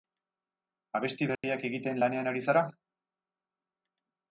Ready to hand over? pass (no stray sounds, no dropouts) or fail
fail